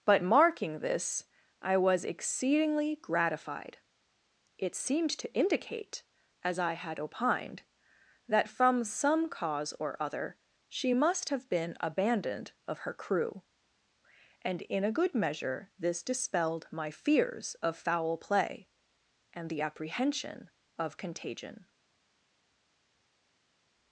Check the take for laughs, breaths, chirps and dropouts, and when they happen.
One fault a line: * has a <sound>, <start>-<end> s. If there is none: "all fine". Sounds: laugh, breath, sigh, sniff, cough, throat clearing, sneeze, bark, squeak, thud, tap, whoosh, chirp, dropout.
all fine